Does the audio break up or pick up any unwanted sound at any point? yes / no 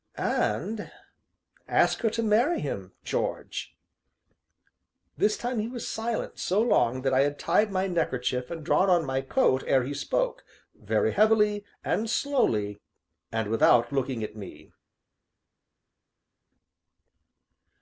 no